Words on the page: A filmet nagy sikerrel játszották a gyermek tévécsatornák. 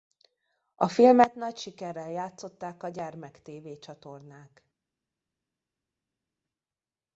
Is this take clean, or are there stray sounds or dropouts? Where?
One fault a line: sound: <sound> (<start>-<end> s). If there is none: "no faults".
no faults